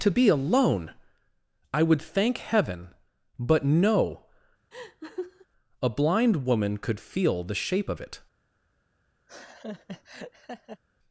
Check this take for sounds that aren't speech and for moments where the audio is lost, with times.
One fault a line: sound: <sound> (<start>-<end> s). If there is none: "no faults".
sound: laugh (4.7-5.5 s)
sound: laugh (9.3-10.8 s)